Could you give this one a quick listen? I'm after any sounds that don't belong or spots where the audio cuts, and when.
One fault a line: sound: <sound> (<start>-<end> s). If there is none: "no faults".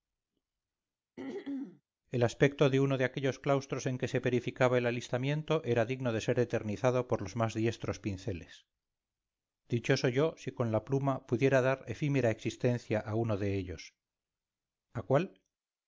sound: throat clearing (1.2-1.8 s)